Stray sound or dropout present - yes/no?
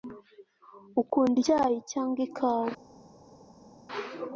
no